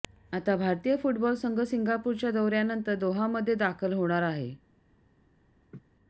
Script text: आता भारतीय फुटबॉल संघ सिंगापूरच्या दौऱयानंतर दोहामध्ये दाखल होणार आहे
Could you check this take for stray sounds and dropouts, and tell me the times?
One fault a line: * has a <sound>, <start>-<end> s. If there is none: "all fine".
* has a laugh, 5.7-5.8 s